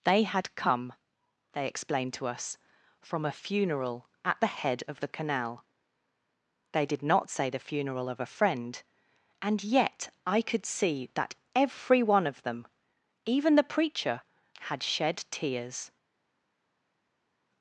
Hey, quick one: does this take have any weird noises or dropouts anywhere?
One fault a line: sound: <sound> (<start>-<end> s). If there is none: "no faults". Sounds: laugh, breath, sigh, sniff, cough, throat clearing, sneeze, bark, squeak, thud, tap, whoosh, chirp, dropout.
no faults